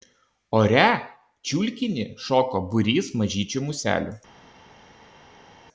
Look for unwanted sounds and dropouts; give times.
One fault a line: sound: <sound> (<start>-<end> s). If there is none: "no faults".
no faults